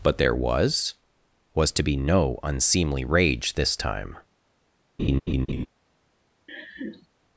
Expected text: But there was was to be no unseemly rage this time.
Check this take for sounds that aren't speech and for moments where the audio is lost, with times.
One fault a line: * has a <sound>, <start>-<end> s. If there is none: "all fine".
* has a laugh, 5.0-5.7 s
* has a laugh, 6.5-7.1 s